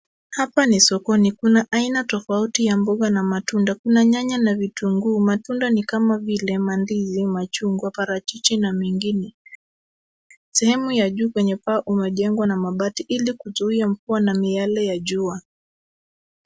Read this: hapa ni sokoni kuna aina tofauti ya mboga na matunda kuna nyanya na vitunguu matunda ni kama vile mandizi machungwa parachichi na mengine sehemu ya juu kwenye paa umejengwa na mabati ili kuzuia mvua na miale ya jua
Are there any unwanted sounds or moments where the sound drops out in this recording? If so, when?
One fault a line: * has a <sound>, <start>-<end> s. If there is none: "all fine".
all fine